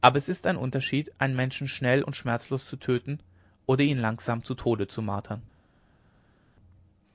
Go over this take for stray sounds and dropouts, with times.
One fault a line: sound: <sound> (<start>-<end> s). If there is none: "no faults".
no faults